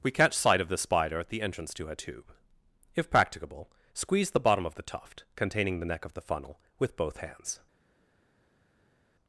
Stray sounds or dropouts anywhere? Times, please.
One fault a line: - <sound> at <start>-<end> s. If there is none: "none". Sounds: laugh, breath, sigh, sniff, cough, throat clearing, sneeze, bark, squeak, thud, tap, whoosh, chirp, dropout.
none